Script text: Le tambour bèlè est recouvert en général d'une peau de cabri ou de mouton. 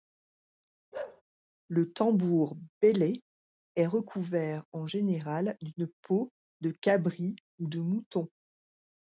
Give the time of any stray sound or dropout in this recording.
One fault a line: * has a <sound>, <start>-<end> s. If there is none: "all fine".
* has a bark, 0.9-1.2 s